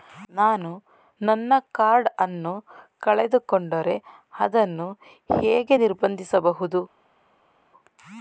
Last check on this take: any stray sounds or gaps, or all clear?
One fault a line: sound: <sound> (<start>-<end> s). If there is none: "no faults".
no faults